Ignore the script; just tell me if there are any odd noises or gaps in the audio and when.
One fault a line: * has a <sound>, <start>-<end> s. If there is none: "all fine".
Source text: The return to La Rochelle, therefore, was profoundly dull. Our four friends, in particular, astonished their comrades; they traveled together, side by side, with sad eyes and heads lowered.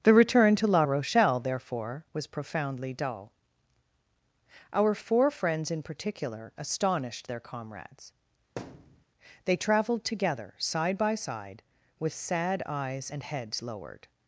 * has a thud, 8.6-9.0 s